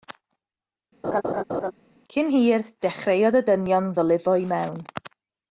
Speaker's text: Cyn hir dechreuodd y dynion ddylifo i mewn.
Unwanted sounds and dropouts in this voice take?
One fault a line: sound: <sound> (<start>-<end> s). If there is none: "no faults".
sound: laugh (1.0-1.7 s)